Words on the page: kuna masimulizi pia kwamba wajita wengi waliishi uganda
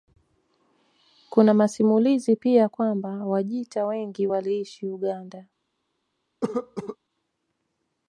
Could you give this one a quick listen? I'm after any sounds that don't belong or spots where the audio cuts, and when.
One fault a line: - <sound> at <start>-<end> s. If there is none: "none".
- cough at 6.4-7.0 s